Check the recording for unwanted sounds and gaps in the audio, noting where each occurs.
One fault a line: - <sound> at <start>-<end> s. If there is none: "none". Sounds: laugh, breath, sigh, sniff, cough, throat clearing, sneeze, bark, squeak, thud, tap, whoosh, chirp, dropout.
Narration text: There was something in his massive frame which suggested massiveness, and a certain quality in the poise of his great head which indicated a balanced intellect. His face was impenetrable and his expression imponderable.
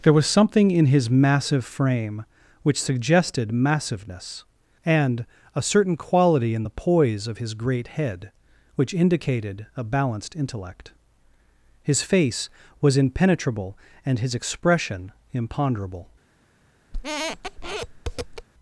- squeak at 16.9-18.5 s